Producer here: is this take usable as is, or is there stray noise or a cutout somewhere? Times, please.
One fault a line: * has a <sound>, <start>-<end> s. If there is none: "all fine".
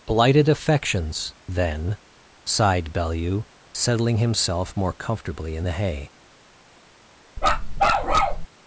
* has a bark, 7.4-8.5 s